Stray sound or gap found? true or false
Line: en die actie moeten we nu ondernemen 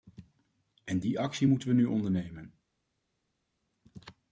false